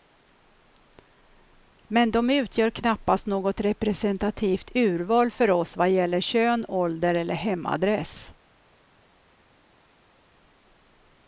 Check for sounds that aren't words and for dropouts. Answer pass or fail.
pass